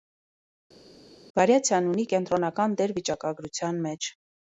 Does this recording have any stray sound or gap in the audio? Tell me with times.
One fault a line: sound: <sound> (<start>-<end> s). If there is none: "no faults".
no faults